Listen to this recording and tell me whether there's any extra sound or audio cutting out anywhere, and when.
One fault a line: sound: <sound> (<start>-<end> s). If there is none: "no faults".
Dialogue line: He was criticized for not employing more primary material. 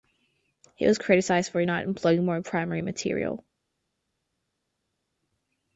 no faults